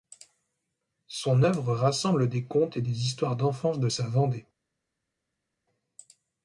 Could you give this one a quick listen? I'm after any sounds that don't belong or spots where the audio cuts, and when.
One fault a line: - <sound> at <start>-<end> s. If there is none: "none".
none